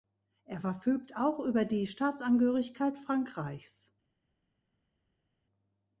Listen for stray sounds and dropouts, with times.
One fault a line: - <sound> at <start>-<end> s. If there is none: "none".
none